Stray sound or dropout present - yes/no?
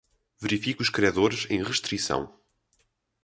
no